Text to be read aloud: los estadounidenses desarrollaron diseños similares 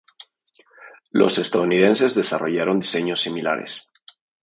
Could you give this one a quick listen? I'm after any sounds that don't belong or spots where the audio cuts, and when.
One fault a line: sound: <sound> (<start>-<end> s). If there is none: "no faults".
no faults